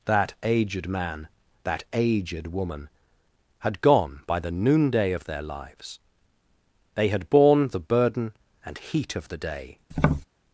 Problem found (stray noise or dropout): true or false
true